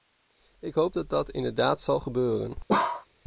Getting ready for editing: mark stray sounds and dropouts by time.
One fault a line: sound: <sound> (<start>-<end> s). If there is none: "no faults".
sound: bark (2.7-3.1 s)